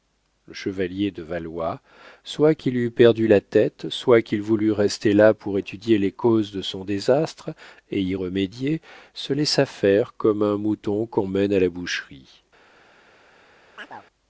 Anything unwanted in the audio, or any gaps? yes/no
yes